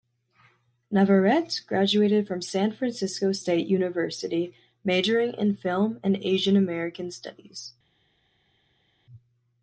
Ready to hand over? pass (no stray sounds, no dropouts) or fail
pass